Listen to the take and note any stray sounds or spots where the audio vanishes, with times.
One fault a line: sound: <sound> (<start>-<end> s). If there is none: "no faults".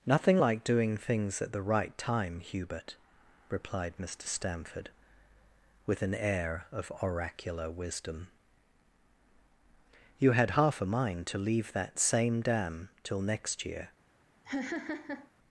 sound: laugh (14.4-15.3 s)